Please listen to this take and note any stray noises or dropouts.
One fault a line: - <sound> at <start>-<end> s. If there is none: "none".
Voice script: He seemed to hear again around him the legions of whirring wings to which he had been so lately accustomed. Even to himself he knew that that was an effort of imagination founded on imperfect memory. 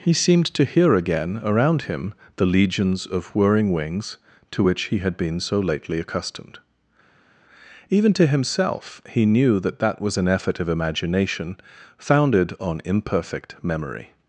none